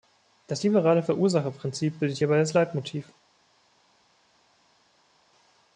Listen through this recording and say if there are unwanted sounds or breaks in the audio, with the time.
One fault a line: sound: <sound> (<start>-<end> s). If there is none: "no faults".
no faults